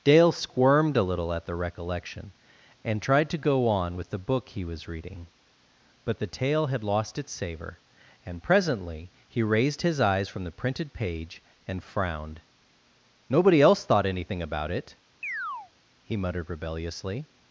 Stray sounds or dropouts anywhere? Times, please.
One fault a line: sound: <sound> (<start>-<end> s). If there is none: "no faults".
sound: chirp (15.2-15.7 s)